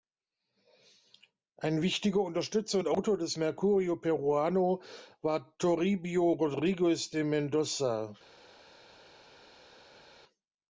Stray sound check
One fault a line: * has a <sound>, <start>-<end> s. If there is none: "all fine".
all fine